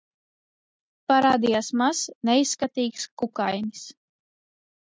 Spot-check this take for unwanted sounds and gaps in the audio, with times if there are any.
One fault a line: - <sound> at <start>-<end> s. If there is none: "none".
none